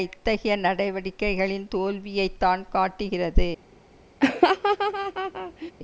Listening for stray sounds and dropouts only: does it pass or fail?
fail